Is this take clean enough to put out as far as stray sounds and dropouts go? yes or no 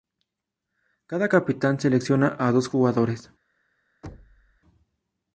no